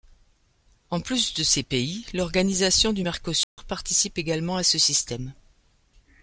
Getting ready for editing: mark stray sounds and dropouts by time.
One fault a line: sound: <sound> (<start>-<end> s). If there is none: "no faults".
sound: dropout (3.4-3.6 s)